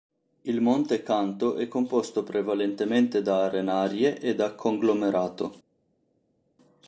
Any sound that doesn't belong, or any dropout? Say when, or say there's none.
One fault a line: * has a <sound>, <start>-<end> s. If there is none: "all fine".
all fine